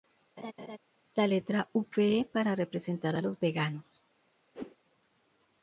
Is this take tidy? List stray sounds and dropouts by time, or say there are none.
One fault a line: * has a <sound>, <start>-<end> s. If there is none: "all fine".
* has a laugh, 0.4-0.8 s
* has a whoosh, 4.5-4.8 s